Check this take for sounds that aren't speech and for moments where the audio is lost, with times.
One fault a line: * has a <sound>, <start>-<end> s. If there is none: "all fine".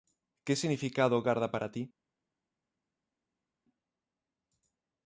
all fine